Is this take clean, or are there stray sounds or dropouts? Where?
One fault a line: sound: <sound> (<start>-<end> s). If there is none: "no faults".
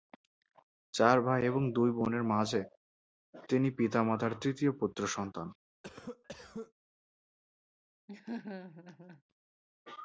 sound: cough (5.8-6.7 s)
sound: laugh (8.1-9.2 s)